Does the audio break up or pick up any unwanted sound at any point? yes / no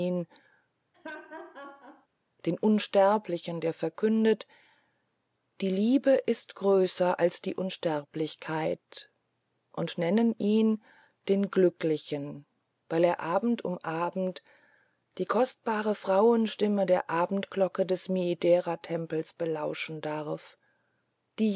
yes